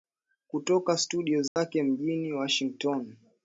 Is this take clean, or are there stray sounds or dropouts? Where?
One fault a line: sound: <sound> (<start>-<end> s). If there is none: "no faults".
sound: dropout (1.5-1.6 s)